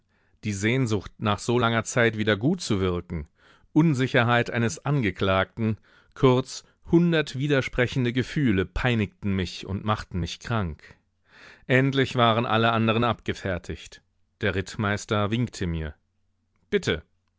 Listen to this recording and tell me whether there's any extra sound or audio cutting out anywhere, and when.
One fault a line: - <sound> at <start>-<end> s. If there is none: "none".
none